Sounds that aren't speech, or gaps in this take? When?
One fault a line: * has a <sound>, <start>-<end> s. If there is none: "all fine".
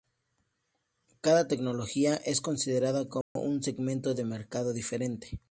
* has a dropout, 3.2-3.4 s